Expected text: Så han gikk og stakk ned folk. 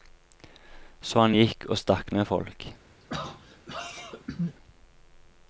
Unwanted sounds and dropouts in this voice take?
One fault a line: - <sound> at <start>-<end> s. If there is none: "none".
- throat clearing at 3.0-4.6 s